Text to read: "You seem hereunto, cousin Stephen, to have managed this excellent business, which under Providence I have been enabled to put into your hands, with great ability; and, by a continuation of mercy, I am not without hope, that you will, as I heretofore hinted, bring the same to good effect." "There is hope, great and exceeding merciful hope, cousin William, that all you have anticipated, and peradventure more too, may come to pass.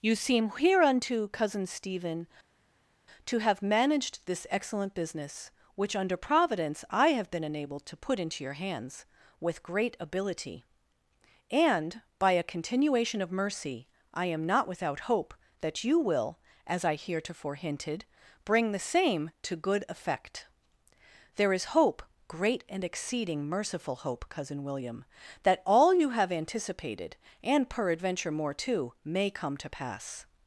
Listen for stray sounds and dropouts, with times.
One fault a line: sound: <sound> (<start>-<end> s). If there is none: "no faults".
no faults